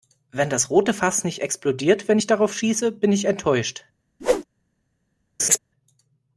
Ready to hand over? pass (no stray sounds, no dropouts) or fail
fail